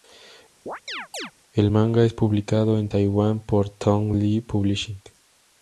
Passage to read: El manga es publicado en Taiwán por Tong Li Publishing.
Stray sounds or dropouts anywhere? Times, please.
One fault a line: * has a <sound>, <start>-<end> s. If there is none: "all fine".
* has a chirp, 0.7-1.3 s